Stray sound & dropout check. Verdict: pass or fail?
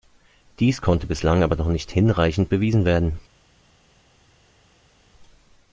pass